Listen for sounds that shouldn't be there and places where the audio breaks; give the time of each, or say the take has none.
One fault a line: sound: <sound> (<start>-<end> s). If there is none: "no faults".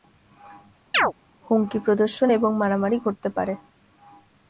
sound: chirp (0.9-1.1 s)